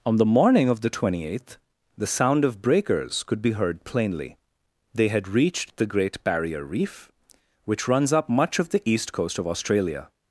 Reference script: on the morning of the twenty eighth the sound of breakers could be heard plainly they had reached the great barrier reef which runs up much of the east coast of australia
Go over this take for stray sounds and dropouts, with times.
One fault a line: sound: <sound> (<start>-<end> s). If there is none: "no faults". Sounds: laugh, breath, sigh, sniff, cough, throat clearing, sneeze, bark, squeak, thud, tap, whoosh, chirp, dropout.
no faults